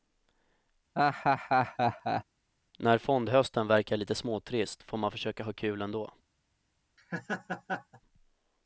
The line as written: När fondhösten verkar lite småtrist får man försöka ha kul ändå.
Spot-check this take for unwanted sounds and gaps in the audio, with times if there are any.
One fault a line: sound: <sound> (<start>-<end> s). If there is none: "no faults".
sound: laugh (1.0-2.2 s)
sound: laugh (7.0-8.0 s)